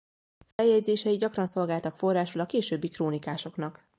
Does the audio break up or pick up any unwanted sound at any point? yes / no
yes